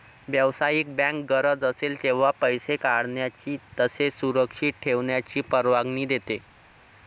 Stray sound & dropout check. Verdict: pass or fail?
pass